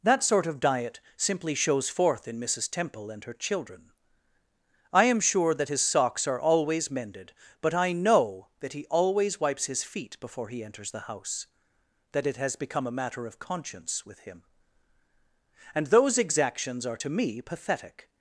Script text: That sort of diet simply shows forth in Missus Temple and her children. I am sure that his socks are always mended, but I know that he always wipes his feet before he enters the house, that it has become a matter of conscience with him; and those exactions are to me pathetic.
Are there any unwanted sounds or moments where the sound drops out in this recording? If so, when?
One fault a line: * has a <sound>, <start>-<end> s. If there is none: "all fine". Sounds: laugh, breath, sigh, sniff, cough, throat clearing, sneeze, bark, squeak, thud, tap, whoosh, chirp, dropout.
all fine